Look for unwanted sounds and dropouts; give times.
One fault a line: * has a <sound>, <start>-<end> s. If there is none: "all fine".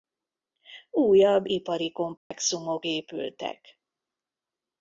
* has a dropout, 2.2-2.3 s